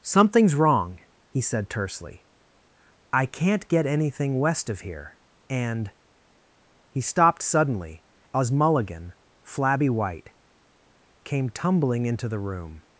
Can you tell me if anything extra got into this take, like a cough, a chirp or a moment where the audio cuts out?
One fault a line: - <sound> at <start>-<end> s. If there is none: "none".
none